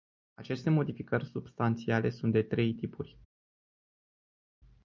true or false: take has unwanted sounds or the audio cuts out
false